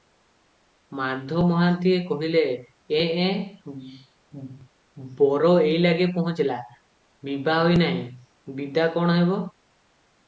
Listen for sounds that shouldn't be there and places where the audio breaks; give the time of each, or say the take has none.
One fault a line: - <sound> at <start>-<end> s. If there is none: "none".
none